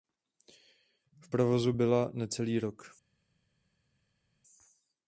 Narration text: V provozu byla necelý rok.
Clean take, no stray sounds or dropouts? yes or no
yes